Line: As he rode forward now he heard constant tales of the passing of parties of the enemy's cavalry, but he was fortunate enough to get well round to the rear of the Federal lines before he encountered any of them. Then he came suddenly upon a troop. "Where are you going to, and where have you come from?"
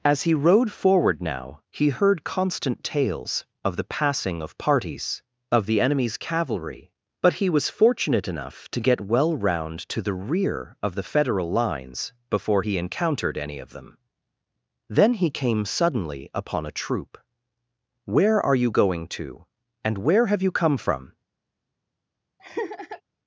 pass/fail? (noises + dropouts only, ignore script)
fail